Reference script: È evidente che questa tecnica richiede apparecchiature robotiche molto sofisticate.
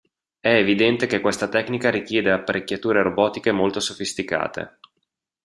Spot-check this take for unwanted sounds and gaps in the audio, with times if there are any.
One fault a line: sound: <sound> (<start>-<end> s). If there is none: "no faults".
no faults